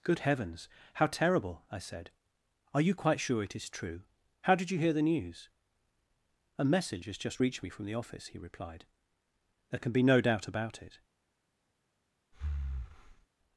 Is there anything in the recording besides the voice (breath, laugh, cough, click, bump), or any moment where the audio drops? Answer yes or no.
yes